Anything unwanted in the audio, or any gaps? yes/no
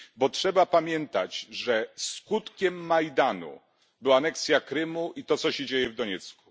no